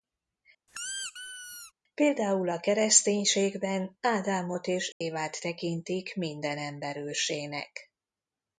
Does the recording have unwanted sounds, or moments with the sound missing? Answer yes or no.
yes